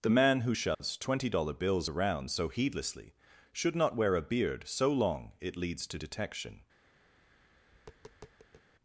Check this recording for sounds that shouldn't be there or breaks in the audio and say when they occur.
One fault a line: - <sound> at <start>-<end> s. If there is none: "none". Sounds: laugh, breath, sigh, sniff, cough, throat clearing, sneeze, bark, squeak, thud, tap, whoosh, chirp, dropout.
- dropout at 0.7-0.8 s
- tap at 7.1-8.7 s